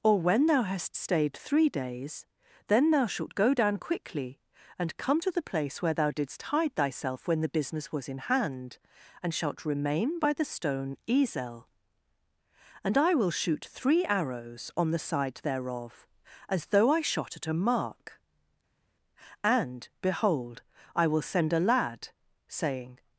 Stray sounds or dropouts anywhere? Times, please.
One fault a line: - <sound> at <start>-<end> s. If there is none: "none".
none